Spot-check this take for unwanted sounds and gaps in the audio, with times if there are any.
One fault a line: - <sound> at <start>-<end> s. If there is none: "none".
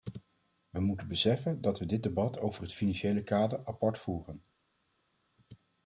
none